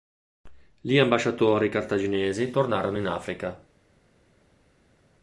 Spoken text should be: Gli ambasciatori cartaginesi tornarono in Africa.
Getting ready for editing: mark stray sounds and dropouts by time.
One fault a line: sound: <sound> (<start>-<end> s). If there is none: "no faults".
no faults